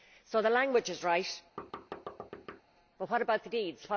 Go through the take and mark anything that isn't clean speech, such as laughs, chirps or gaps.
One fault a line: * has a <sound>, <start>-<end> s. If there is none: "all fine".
* has a thud, 1.6-2.6 s